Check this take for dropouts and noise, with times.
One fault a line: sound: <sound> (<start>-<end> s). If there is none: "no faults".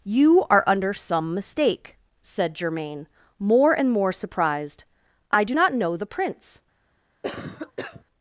sound: cough (7.2-8.0 s)